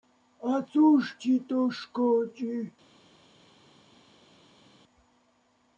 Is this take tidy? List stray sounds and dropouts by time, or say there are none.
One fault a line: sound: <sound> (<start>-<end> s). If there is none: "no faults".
no faults